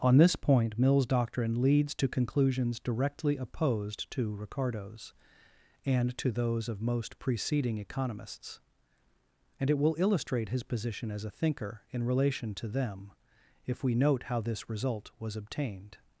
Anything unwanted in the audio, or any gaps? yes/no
no